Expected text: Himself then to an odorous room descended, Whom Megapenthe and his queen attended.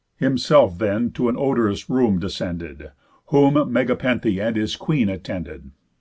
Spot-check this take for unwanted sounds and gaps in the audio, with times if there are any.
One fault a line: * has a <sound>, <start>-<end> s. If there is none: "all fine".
all fine